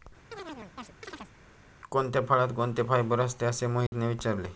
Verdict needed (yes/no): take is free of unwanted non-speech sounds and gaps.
no